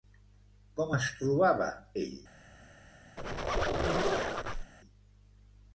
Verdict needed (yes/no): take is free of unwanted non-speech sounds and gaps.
no